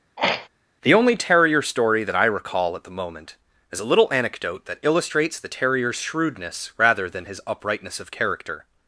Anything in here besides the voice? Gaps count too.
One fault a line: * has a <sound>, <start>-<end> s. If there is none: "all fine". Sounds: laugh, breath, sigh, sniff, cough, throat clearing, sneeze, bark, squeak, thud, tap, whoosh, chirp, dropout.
* has a throat clearing, 0.2-0.5 s